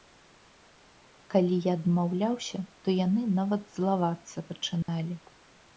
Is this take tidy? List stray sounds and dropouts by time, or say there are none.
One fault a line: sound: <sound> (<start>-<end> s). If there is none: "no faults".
sound: dropout (4.8-4.9 s)